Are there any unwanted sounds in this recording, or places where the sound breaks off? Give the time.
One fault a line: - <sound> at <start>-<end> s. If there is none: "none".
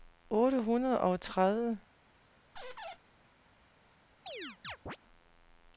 - squeak at 2.6-3.0 s
- chirp at 4.3-5.0 s